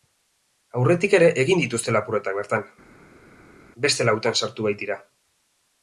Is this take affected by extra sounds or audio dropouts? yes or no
no